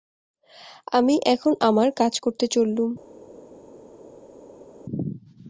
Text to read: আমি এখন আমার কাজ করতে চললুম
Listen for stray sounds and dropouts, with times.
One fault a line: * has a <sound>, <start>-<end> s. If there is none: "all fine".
all fine